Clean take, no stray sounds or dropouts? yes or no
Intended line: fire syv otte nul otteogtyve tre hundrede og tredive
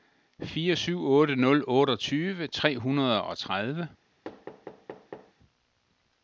no